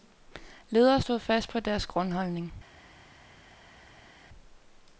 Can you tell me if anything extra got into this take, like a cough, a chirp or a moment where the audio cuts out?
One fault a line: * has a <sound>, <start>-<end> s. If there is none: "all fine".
all fine